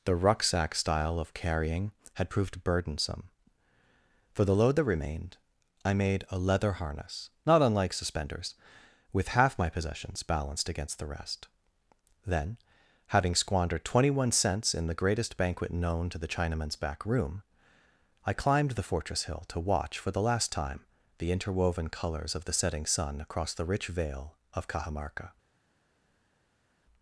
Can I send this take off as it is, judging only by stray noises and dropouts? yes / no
yes